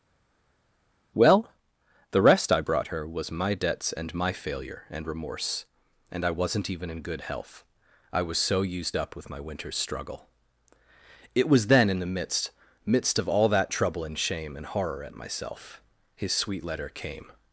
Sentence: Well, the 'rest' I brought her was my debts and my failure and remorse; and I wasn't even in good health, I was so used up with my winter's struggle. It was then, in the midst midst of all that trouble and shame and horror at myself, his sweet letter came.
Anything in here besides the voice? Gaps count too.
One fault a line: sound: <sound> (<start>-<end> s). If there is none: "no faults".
no faults